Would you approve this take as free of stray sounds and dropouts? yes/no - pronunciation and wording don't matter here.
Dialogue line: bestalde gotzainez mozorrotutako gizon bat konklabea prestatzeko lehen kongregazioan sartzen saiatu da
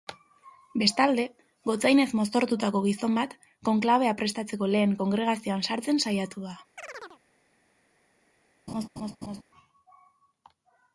no